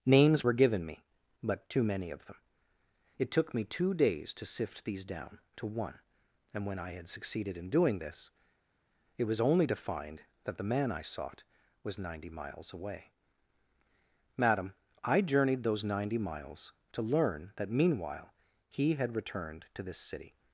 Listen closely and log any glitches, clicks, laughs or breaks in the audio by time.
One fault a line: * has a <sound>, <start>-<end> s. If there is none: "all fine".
all fine